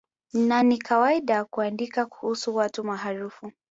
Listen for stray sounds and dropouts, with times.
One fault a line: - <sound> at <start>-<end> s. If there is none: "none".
none